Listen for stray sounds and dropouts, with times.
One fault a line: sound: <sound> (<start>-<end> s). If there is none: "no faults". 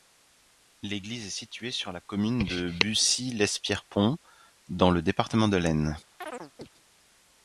sound: chirp (6.2-6.7 s)